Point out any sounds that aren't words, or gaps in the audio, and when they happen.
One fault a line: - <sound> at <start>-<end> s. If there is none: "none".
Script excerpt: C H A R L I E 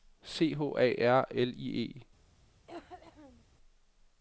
- cough at 2.7-3.4 s